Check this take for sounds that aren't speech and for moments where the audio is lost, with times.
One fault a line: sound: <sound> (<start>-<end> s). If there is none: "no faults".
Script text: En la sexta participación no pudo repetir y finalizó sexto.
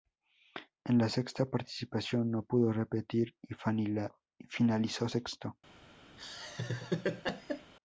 sound: laugh (6.2-7.7 s)